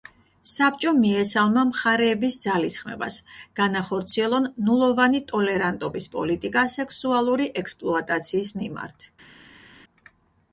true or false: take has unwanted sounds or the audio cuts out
false